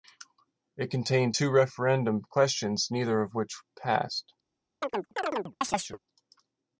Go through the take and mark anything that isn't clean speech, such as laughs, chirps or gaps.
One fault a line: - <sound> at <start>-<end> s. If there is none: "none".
- chirp at 4.8-6.0 s